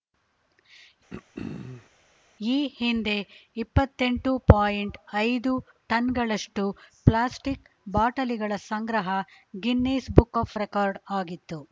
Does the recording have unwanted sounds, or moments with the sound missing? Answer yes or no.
yes